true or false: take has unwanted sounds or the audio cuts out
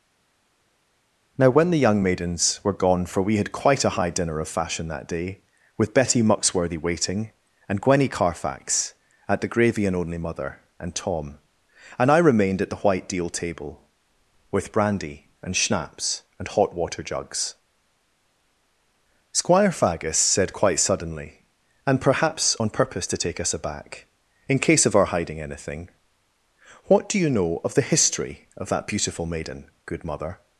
false